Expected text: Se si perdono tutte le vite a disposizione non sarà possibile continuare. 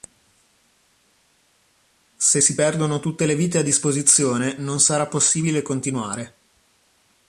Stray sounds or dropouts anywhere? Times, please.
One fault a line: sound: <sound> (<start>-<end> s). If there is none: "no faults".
no faults